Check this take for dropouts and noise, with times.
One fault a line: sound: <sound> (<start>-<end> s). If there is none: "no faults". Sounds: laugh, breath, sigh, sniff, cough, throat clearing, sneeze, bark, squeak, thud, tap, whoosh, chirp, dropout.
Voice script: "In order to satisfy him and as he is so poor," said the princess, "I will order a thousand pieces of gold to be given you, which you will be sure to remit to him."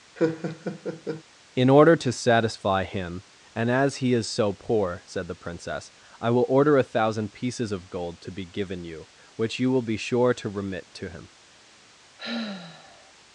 sound: laugh (0.2-1.2 s)
sound: sigh (12.2-13.1 s)